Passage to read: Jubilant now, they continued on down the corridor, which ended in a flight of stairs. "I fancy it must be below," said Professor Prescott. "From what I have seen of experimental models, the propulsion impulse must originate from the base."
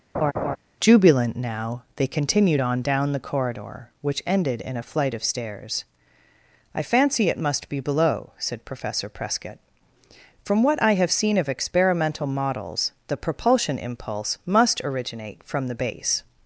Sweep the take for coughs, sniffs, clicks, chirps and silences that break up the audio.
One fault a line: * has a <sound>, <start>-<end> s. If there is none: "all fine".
* has a laugh, 0.1-0.6 s